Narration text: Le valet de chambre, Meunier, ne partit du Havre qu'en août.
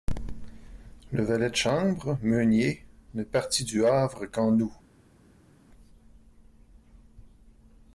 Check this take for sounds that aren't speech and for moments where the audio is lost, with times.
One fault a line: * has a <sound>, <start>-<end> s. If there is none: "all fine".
all fine